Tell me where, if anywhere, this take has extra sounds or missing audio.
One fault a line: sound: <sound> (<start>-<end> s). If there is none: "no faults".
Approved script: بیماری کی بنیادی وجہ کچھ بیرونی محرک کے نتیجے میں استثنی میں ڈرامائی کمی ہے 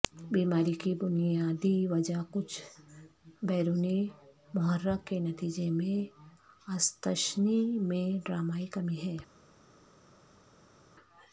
no faults